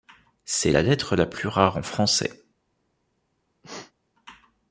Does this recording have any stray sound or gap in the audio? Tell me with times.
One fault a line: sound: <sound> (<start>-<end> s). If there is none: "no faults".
sound: sneeze (3.6-3.9 s)